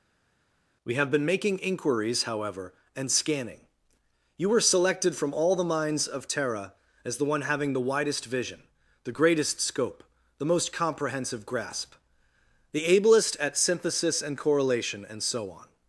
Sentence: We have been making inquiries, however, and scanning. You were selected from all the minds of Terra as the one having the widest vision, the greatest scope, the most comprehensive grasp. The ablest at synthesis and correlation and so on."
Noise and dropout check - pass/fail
pass